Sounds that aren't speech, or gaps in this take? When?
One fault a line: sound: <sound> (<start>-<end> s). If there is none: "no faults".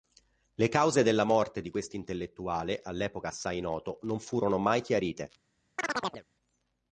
sound: chirp (5.8-6.2 s)